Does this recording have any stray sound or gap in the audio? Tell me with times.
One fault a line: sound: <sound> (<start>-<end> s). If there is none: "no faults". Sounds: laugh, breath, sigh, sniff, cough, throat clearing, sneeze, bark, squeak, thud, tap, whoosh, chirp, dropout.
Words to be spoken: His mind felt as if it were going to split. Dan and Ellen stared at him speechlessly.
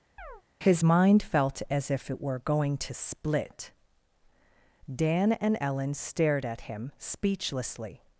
sound: chirp (0.2-0.4 s)